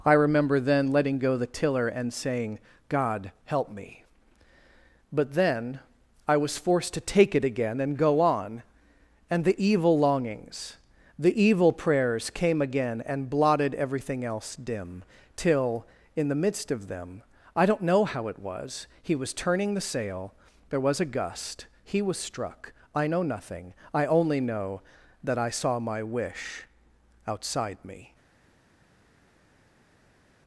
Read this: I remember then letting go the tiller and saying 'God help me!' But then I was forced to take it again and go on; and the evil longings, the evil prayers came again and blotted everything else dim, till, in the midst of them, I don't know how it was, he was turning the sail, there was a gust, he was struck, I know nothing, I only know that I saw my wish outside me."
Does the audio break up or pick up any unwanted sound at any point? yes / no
no